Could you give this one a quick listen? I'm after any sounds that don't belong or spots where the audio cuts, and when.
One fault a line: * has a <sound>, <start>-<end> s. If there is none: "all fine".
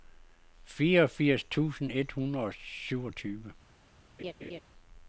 * has a laugh, 4.2-4.6 s